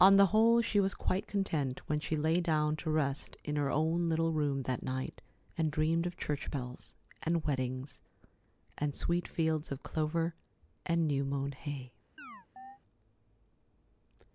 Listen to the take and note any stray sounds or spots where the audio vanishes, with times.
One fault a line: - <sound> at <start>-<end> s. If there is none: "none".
- chirp at 12.2-12.8 s